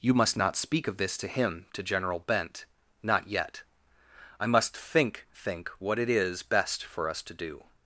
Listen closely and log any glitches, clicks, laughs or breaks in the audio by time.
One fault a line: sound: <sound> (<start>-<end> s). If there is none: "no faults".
no faults